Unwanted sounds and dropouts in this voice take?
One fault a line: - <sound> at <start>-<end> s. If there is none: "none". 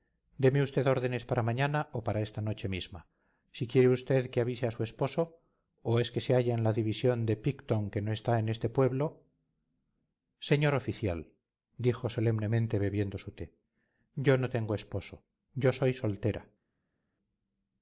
none